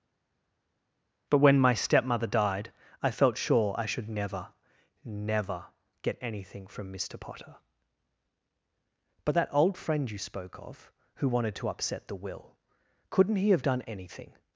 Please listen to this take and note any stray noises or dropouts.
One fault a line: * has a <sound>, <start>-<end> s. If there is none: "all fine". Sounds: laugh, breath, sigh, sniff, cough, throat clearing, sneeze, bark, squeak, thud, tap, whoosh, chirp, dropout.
all fine